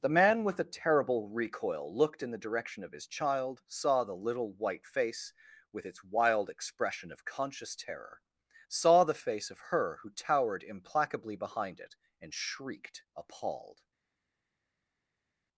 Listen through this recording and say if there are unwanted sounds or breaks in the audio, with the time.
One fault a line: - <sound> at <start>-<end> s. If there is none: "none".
none